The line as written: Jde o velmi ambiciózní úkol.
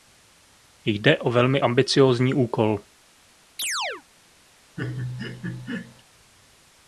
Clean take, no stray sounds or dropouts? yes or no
no